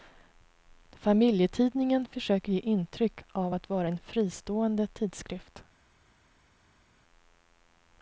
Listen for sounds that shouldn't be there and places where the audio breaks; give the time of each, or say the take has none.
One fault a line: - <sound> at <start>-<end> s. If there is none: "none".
none